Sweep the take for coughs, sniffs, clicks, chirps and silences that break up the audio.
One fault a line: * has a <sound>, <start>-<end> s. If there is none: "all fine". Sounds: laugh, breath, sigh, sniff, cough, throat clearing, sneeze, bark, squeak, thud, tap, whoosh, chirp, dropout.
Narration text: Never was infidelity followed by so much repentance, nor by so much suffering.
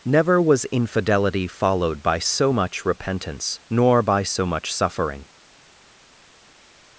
all fine